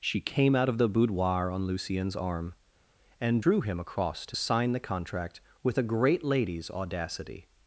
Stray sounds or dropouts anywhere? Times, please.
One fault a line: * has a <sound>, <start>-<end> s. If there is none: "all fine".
all fine